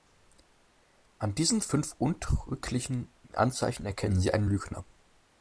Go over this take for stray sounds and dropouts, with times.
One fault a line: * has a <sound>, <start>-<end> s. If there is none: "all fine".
all fine